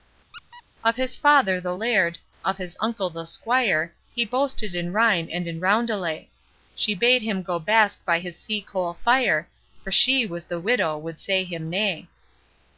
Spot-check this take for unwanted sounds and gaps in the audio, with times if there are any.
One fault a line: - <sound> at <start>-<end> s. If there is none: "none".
- squeak at 0.3-0.6 s